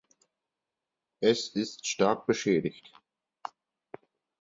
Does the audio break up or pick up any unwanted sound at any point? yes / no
no